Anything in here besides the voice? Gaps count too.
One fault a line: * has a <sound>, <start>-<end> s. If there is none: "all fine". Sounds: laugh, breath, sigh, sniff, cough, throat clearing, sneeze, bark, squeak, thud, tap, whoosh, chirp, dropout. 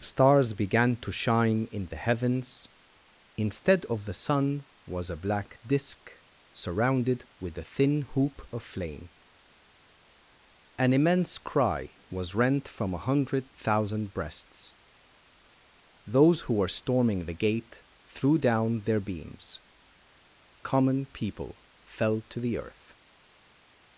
all fine